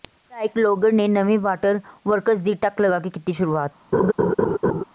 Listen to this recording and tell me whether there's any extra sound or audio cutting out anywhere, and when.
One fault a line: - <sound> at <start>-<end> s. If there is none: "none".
- laugh at 3.9-4.8 s